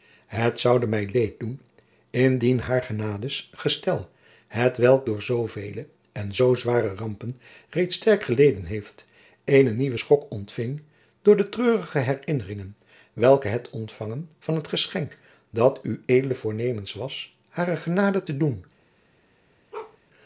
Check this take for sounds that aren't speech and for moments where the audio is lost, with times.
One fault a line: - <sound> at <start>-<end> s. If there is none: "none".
- bark at 19.7-20.0 s